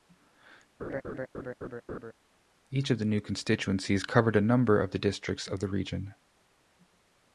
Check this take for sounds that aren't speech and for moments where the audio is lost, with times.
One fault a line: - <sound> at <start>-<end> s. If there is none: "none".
- laugh at 0.8-2.1 s